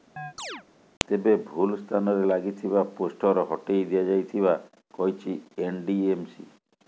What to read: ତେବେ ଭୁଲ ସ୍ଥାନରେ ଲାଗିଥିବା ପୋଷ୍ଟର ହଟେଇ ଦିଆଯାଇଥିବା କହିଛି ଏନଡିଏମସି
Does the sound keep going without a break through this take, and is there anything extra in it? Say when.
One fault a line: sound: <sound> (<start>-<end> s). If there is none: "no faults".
sound: chirp (0.2-0.6 s)